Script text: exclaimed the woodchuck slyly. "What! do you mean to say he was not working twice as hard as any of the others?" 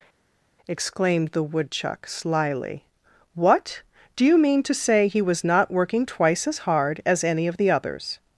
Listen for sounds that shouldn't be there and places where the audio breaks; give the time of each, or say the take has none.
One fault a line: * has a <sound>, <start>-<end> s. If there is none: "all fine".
all fine